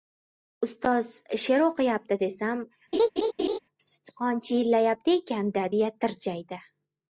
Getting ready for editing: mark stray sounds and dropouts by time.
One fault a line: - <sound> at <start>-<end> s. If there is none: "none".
- laugh at 2.9-3.6 s